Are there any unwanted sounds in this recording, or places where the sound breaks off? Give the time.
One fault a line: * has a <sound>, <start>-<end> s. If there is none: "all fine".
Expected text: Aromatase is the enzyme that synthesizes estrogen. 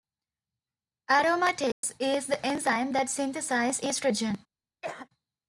* has a dropout, 1.7-1.8 s
* has a cough, 4.8-5.1 s